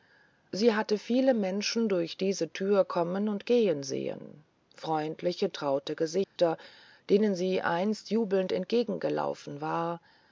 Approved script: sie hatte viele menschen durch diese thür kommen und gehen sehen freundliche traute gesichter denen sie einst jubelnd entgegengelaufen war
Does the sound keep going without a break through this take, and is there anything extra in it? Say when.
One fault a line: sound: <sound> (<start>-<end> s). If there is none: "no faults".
sound: dropout (6.2-6.4 s)